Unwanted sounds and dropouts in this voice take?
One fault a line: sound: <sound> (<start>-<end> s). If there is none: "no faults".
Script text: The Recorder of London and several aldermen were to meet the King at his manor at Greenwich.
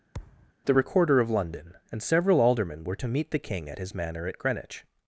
sound: thud (0.1-0.5 s)